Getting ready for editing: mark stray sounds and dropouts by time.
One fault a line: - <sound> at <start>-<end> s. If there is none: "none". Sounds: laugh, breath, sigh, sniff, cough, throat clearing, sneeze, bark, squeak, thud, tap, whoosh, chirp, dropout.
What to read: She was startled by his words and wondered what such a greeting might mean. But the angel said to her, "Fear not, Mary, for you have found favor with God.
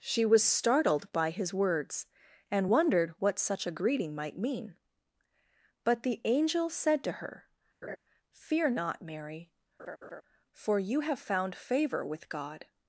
- laugh at 7.8-8.0 s
- laugh at 9.8-10.2 s